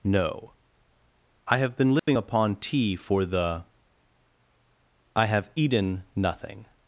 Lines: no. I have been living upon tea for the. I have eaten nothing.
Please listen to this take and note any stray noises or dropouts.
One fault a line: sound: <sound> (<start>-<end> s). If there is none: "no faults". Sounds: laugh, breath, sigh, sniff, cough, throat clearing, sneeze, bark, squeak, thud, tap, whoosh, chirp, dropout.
sound: dropout (2.0-2.1 s)